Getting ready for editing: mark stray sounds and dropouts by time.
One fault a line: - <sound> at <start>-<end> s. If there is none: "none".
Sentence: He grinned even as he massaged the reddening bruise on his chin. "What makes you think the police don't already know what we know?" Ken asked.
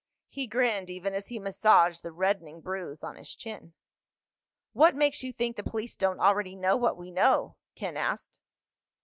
none